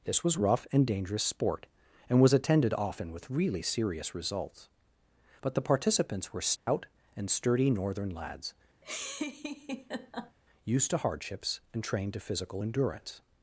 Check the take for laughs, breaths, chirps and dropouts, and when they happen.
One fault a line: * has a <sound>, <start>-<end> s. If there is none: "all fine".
* has a dropout, 6.6-6.7 s
* has a laugh, 8.8-10.4 s